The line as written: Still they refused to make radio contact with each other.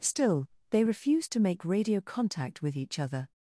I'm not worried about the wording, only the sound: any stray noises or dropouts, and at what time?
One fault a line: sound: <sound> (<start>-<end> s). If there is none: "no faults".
no faults